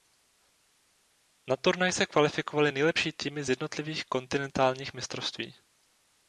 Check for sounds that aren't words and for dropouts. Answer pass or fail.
pass